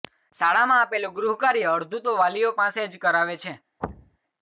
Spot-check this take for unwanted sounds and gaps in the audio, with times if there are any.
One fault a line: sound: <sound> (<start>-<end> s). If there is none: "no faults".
sound: thud (3.8-4.2 s)